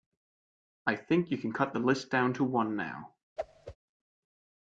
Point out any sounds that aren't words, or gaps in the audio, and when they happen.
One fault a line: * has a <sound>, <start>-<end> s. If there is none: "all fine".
* has a whoosh, 3.4-3.8 s